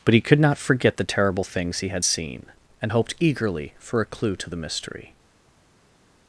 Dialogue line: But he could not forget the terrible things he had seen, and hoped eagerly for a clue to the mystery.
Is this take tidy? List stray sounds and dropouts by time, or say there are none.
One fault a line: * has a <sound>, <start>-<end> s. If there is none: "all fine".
all fine